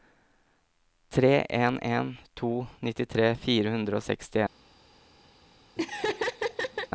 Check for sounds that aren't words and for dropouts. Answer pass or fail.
fail